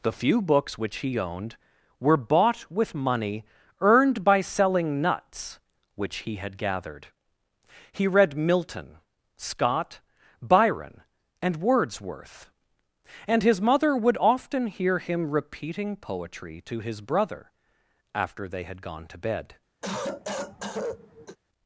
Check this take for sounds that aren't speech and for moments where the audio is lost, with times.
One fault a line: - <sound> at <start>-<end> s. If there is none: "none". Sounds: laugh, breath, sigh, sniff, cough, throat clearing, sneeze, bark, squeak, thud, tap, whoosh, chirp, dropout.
- cough at 19.8-21.4 s